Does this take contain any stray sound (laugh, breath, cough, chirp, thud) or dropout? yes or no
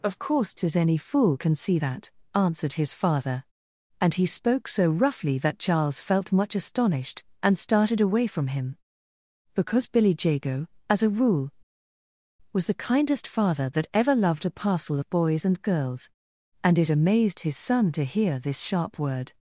no